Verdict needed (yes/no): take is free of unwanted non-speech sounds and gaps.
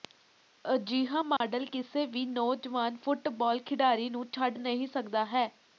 no